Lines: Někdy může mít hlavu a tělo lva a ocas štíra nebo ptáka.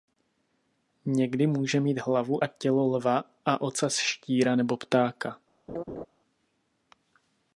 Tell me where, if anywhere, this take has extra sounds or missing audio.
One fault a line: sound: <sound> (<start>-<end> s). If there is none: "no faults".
sound: laugh (5.7-6.1 s)